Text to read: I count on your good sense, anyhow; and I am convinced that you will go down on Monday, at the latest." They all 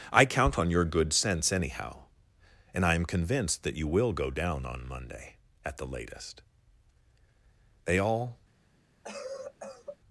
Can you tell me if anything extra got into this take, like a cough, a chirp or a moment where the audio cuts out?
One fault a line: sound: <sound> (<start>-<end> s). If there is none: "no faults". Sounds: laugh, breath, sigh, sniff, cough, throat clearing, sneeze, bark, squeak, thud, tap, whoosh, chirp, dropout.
sound: cough (9.0-10.0 s)